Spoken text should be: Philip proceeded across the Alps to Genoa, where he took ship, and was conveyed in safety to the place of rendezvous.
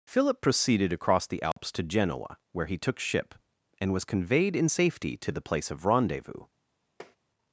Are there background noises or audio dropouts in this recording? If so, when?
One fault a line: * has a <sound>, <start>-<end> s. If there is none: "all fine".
* has a dropout, 1.5-1.6 s
* has a tap, 7.0-7.2 s